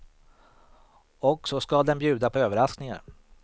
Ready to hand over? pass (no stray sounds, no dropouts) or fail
pass